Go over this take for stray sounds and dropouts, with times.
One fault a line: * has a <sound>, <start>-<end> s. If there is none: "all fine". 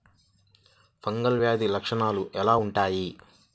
all fine